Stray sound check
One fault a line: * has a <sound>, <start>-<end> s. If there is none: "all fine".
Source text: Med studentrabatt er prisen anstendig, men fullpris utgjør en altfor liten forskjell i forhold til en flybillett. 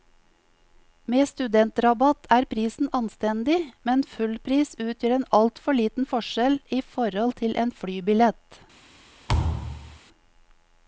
* has a thud, 9.3-10.0 s